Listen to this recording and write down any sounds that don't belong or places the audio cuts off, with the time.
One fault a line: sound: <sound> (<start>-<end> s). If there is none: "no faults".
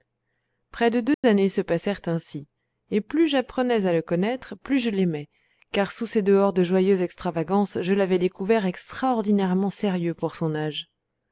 sound: dropout (1.1-1.2 s)